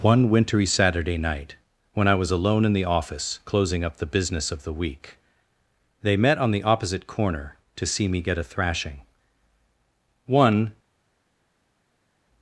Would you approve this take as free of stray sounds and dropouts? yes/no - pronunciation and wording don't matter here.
yes